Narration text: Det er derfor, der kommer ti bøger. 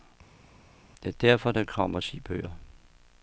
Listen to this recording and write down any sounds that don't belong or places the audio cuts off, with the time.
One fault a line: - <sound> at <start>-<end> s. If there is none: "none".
none